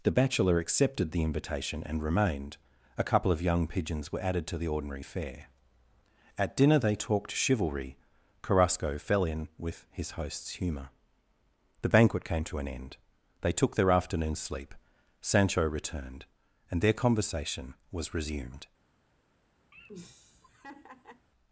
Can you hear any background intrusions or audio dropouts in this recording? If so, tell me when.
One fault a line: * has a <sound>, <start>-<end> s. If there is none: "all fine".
* has a laugh, 19.7-21.3 s